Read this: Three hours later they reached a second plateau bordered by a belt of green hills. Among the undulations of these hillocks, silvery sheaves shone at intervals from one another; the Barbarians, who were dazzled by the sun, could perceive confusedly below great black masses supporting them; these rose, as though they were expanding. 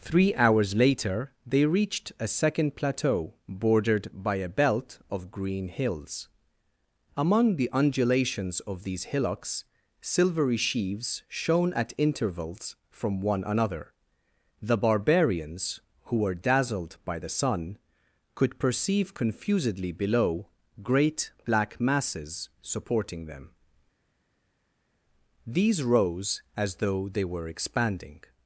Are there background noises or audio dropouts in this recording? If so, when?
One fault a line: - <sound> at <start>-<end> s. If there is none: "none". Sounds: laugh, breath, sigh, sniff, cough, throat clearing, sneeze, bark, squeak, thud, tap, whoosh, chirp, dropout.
none